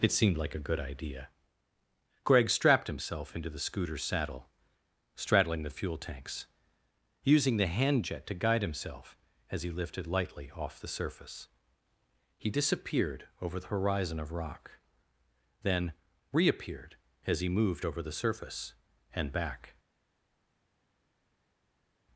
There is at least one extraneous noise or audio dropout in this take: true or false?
false